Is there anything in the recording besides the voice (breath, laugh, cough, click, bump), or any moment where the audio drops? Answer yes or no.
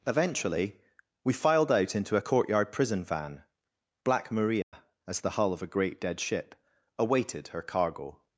yes